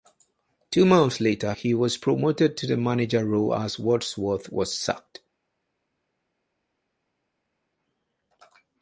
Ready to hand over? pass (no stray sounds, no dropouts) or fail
pass